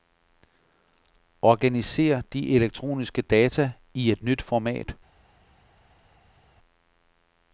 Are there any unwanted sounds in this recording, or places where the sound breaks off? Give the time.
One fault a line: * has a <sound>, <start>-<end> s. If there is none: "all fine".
all fine